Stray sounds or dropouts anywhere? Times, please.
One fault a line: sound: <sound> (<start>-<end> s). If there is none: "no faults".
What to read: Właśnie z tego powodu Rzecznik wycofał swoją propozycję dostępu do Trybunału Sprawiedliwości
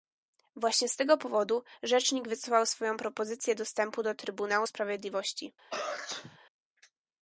sound: sneeze (5.7-6.4 s)